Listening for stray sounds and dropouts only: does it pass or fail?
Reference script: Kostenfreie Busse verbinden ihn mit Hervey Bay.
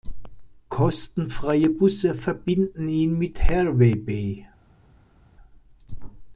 pass